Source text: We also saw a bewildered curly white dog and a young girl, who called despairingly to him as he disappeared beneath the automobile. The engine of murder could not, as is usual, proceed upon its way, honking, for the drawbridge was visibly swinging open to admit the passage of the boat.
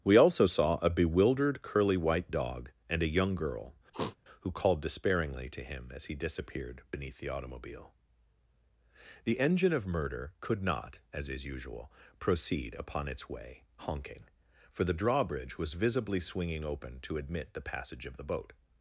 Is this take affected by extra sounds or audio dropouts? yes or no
yes